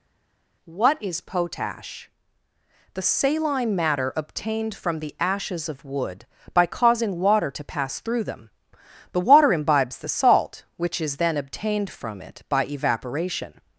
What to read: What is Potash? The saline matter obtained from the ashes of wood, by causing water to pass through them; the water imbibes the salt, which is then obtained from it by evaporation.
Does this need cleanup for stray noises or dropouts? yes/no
no